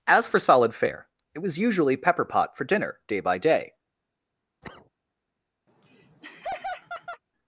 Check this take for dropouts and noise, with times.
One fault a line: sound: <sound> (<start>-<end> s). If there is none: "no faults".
sound: cough (4.6-4.9 s)
sound: laugh (5.7-7.2 s)